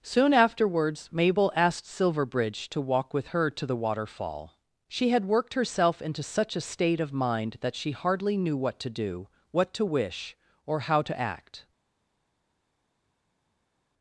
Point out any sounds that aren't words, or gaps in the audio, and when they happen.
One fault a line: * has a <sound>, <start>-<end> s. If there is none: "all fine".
all fine